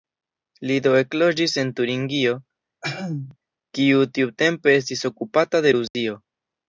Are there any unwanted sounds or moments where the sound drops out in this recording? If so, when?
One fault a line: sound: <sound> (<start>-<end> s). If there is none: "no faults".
sound: throat clearing (2.8-3.4 s)
sound: dropout (5.9-5.9 s)